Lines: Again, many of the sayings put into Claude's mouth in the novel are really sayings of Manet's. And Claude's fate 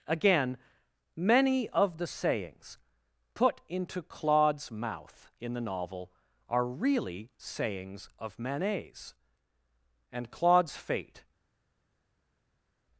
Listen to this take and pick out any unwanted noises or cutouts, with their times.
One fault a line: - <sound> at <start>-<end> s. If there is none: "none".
none